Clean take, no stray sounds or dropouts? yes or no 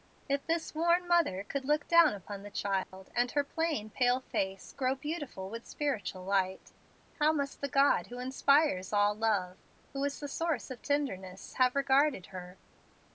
no